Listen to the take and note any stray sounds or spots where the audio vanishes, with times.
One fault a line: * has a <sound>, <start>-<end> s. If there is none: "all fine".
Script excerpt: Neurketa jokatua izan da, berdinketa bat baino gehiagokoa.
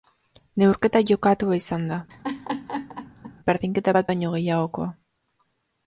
* has a laugh, 2.1-3.3 s